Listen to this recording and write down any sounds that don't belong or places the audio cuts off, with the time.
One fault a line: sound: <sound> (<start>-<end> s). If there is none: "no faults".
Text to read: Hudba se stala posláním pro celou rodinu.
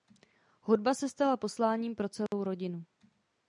sound: dropout (2.3-2.3 s)